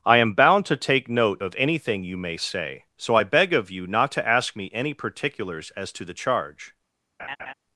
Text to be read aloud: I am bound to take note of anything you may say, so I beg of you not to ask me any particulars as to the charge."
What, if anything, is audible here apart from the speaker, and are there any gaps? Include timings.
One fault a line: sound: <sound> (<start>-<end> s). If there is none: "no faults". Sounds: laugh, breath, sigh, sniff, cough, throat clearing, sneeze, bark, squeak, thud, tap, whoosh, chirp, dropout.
sound: laugh (7.2-7.5 s)